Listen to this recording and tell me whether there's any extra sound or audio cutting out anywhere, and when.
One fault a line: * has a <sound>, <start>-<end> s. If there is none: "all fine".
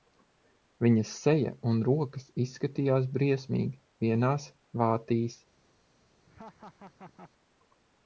* has a laugh, 6.3-7.3 s